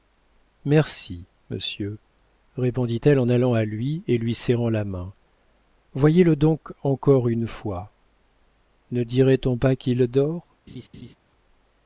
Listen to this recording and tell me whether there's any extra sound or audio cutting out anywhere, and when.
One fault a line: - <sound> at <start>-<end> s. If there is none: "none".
- laugh at 10.7-11.2 s